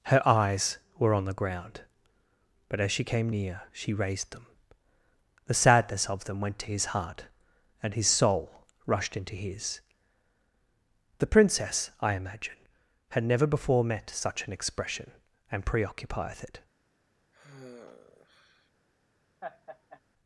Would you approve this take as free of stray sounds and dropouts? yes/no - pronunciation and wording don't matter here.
no